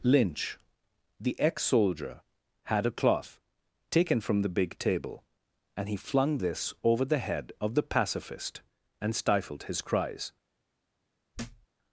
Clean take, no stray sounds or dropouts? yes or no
no